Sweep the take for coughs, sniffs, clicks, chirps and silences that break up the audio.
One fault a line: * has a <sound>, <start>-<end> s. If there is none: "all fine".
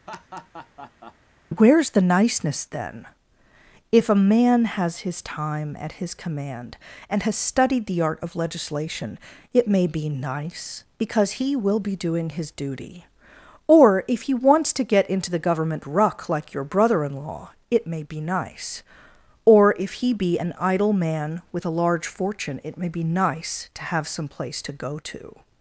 * has a laugh, 0.1-1.2 s